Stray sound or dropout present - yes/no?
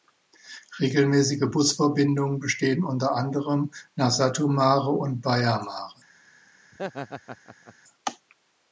yes